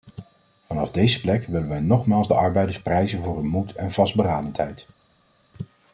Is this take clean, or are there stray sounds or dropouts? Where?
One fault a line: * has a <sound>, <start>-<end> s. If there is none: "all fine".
all fine